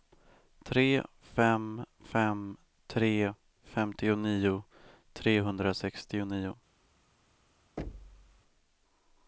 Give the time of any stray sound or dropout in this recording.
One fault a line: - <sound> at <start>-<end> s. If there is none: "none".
- thud at 7.8-8.4 s